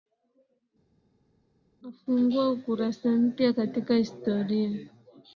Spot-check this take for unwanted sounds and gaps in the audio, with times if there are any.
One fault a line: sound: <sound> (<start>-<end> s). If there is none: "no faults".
no faults